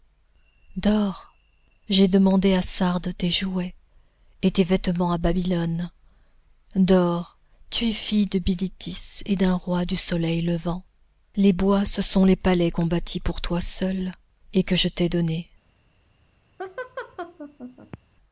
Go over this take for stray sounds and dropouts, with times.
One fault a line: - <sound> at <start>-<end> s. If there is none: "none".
- laugh at 16.6-18.0 s